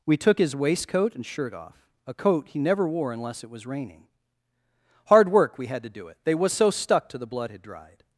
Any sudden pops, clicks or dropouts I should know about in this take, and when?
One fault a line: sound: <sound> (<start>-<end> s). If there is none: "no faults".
no faults